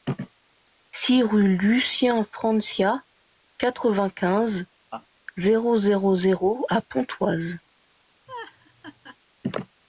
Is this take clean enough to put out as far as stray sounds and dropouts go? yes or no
no